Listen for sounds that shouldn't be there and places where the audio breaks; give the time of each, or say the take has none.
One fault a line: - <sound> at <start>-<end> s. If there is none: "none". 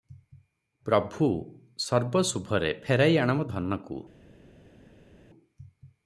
none